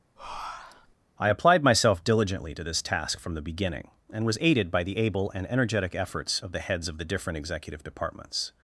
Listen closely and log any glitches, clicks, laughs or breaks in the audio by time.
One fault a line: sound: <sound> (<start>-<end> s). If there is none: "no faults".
sound: breath (0.2-0.9 s)